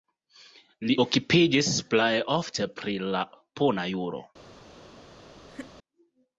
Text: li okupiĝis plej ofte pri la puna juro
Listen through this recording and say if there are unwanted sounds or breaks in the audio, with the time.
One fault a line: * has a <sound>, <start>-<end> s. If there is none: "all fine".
* has a laugh, 5.5-5.7 s